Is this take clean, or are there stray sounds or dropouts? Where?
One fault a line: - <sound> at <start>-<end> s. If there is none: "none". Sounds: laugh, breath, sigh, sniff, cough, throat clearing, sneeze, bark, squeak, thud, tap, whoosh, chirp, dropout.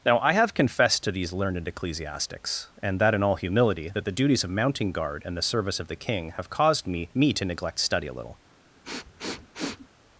- sniff at 8.8-9.9 s